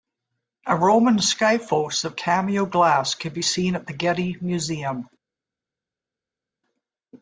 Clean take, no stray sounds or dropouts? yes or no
yes